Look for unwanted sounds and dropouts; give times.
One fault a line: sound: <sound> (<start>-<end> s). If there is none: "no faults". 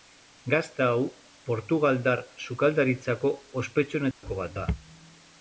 sound: dropout (4.1-4.2 s)